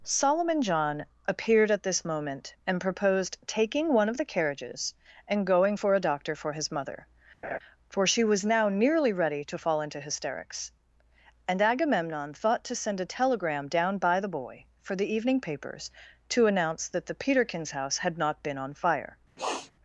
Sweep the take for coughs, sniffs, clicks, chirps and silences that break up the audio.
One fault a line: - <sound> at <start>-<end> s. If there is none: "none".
- laugh at 7.4-7.6 s
- sniff at 19.4-19.7 s